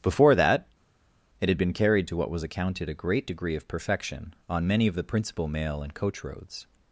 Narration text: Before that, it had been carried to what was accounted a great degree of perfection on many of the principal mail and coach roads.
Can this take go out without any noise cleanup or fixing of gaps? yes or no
yes